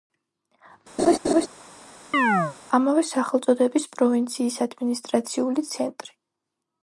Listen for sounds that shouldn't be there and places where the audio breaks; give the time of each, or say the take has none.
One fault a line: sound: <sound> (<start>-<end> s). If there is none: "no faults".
sound: laugh (1.0-1.5 s)
sound: chirp (2.1-2.6 s)